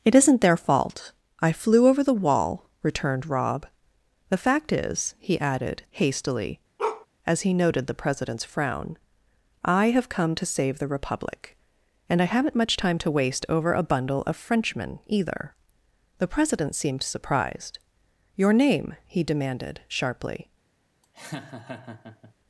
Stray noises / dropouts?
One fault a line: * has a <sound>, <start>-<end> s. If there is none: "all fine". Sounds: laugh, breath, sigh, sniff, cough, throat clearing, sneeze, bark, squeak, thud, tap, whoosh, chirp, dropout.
* has a bark, 6.8-7.1 s
* has a laugh, 21.0-22.3 s